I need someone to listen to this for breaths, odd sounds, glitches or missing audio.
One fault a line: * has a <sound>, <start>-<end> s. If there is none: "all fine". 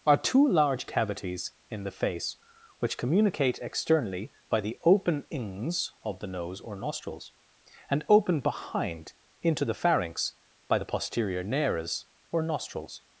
all fine